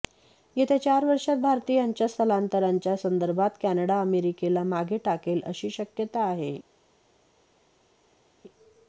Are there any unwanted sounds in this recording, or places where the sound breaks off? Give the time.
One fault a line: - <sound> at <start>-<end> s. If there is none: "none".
none